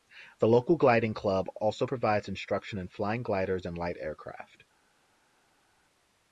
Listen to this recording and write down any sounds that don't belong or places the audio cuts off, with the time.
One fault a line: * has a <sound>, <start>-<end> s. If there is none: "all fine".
all fine